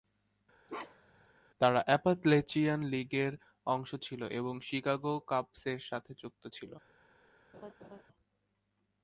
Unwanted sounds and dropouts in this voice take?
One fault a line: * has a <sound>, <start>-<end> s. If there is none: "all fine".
* has a bark, 0.7-1.3 s
* has a laugh, 7.5-8.0 s